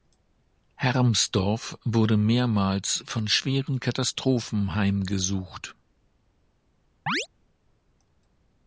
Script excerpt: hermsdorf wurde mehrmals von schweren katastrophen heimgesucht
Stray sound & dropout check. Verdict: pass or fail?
fail